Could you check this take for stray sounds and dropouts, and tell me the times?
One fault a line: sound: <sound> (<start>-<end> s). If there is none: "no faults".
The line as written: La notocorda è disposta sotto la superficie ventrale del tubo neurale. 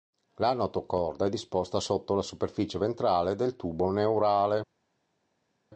no faults